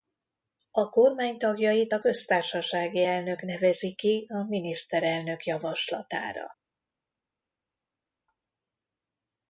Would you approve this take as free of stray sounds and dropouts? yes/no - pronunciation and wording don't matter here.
yes